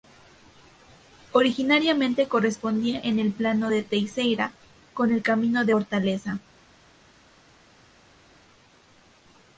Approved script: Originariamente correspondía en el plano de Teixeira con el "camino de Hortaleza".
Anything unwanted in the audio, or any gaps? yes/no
no